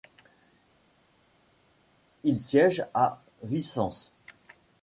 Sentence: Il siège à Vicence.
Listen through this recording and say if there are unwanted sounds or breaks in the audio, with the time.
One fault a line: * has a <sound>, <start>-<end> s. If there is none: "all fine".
all fine